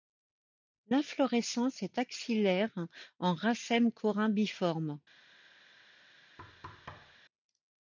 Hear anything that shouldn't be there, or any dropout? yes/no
yes